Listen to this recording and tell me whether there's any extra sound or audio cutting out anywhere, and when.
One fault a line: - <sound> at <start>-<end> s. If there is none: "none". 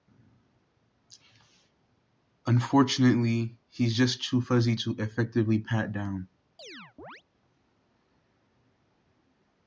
- chirp at 6.6-7.2 s